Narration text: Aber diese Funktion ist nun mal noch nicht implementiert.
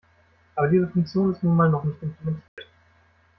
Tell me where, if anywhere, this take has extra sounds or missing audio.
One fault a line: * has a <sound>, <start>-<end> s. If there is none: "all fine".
* has a dropout, 2.5-2.6 s